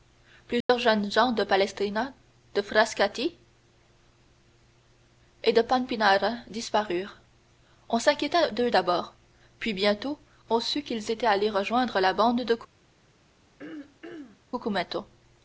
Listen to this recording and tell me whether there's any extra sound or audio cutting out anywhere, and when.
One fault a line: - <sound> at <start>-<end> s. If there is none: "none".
- dropout at 0.6-0.7 s
- throat clearing at 13.6-14.4 s